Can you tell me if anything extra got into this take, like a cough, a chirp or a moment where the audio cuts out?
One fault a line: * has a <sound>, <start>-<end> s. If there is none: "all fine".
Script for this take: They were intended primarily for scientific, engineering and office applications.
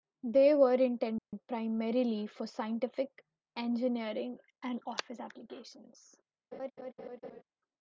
* has a dropout, 1.2-1.3 s
* has a laugh, 6.5-7.4 s